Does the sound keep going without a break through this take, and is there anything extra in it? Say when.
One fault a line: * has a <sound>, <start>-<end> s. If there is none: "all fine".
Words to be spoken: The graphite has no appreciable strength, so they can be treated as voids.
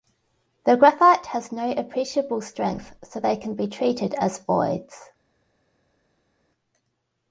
all fine